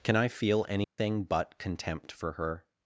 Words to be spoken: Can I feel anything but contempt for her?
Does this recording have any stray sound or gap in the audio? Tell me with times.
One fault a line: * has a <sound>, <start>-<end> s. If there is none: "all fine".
* has a dropout, 0.8-1.0 s